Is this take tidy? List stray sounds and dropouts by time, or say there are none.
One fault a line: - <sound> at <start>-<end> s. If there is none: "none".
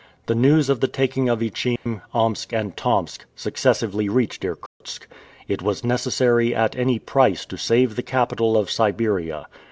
- dropout at 1.8-1.9 s
- dropout at 4.7-4.8 s